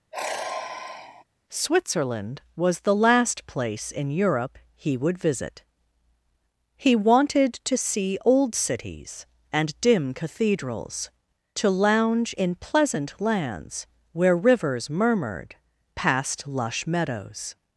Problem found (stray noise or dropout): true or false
true